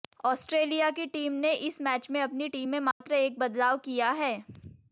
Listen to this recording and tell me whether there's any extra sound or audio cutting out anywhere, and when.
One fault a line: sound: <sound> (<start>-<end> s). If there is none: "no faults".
sound: dropout (2.9-3.0 s)